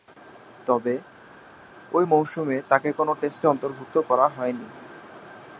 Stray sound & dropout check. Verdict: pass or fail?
pass